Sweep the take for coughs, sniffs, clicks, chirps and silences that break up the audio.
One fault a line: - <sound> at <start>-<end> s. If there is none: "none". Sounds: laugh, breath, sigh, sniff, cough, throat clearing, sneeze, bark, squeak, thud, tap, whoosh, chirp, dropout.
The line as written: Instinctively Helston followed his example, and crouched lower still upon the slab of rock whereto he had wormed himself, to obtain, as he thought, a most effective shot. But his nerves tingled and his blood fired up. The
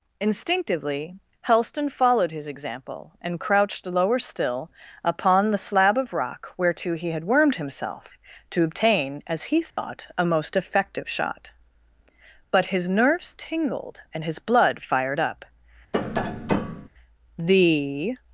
- dropout at 9.7-9.8 s
- tap at 15.9-16.9 s